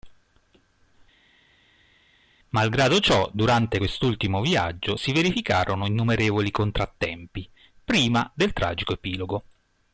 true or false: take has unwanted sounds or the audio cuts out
false